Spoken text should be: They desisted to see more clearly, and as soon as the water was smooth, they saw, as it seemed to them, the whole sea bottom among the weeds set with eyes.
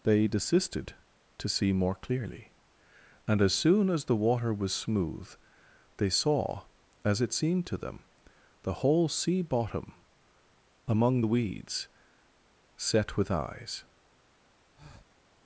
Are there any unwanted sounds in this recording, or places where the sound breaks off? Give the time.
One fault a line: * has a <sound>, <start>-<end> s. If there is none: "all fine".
* has a breath, 14.8-15.2 s